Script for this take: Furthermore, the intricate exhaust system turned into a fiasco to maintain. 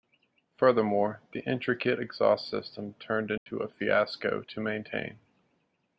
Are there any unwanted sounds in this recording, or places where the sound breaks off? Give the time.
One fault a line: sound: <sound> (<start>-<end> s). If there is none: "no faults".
sound: dropout (3.4-3.5 s)